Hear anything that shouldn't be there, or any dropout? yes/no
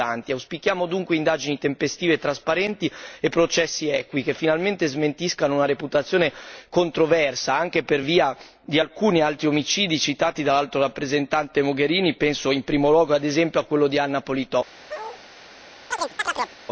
yes